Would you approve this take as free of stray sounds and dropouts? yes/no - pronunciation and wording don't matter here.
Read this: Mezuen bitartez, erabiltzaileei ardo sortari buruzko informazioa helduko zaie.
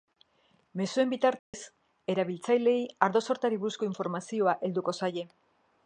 no